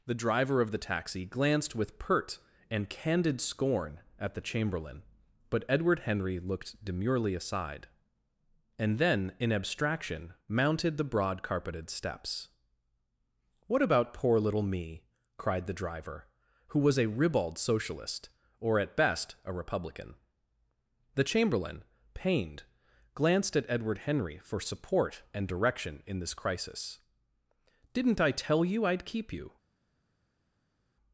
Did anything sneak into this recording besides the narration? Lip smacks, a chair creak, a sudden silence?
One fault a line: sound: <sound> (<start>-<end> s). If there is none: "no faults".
no faults